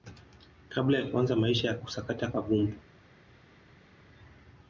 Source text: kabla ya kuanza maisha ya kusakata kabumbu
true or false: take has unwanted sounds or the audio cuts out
false